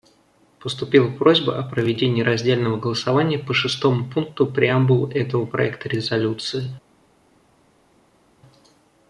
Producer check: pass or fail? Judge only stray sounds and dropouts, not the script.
pass